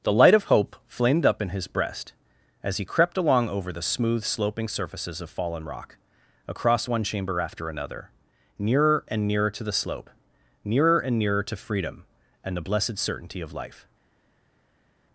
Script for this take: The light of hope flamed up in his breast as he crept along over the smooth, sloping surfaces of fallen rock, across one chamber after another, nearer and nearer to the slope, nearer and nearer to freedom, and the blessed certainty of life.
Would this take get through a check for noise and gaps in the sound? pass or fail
pass